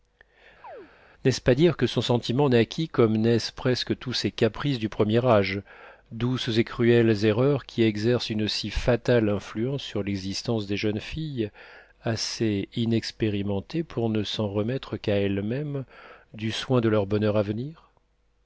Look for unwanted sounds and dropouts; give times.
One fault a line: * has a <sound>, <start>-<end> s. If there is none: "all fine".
* has a chirp, 0.6-0.9 s